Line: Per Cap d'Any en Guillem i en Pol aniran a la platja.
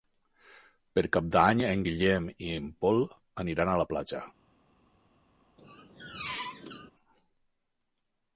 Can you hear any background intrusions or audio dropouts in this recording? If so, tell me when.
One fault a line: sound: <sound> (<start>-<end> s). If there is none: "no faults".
sound: squeak (5.6-6.9 s)